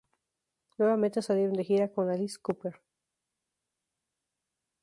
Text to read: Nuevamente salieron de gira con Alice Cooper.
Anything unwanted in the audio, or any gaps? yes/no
no